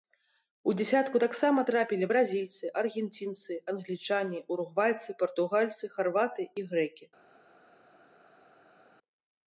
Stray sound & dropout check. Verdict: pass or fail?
pass